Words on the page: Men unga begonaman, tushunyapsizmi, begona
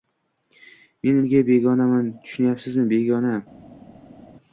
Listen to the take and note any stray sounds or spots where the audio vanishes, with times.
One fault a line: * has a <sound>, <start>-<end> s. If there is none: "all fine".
all fine